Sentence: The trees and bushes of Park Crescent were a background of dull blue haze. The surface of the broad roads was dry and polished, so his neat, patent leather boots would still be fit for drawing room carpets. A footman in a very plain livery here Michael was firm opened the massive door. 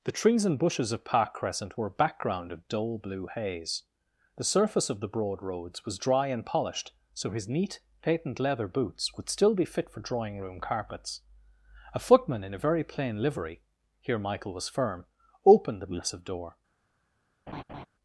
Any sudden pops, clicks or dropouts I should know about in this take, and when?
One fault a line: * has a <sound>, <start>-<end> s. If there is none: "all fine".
* has a laugh, 17.5-17.9 s